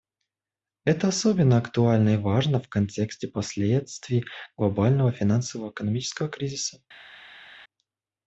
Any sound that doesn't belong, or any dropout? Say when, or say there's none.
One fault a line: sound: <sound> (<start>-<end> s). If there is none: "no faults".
no faults